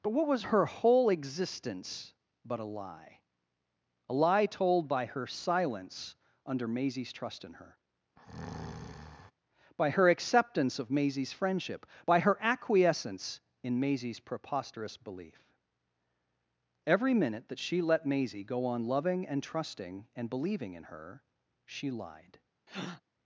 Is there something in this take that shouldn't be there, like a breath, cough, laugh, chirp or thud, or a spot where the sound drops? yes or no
yes